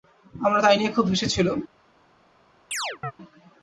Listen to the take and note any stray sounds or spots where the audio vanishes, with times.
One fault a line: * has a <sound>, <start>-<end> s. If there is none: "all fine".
* has a chirp, 2.7-3.1 s